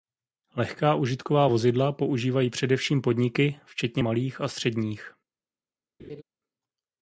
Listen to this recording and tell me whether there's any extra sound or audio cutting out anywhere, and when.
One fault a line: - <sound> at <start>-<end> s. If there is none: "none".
- laugh at 6.0-6.2 s